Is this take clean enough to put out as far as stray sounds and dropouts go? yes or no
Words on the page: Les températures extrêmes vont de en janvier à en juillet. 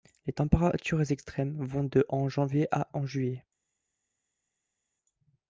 yes